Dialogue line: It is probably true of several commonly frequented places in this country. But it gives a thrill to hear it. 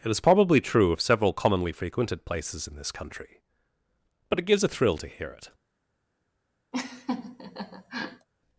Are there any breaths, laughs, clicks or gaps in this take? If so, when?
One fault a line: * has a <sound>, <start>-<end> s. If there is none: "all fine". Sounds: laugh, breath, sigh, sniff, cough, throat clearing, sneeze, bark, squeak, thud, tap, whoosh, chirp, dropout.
* has a laugh, 6.7-8.3 s